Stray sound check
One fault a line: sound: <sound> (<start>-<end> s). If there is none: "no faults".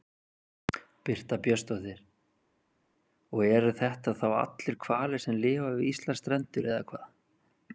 no faults